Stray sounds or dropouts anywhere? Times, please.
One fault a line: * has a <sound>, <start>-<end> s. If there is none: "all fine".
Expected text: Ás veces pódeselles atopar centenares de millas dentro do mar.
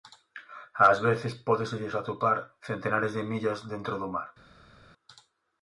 all fine